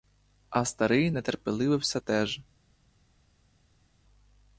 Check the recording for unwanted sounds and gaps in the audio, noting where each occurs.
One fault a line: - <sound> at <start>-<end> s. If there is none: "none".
none